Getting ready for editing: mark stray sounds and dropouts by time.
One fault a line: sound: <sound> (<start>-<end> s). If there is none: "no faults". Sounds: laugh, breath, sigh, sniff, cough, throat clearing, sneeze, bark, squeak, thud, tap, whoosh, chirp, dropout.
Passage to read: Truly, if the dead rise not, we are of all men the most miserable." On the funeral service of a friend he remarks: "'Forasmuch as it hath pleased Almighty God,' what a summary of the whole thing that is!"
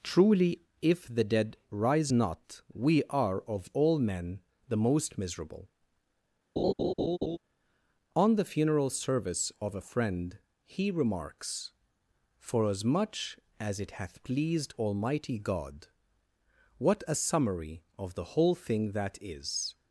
sound: laugh (6.6-7.4 s)